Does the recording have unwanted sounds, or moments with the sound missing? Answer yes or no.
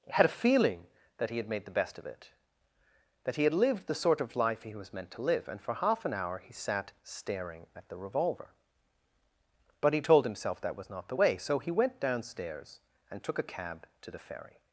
no